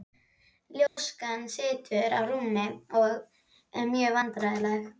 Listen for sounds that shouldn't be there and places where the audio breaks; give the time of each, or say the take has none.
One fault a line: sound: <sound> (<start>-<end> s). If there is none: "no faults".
sound: dropout (0.9-1.0 s)